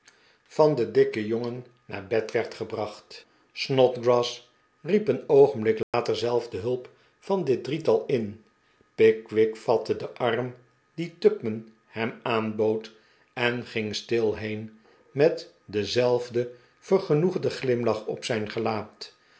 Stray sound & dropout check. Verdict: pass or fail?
fail